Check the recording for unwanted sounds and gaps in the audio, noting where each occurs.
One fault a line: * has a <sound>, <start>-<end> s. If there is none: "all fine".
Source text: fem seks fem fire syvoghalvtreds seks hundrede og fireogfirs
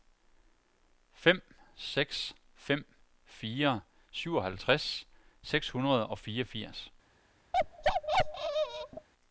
* has a bark, 7.5-9.1 s